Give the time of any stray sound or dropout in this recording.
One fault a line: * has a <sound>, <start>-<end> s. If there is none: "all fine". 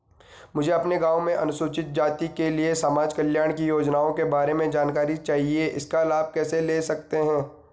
all fine